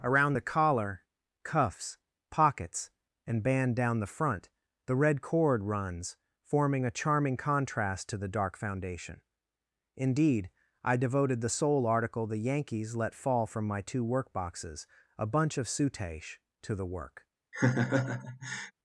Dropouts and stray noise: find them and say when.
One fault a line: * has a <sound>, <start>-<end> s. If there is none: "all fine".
* has a laugh, 17.5-18.7 s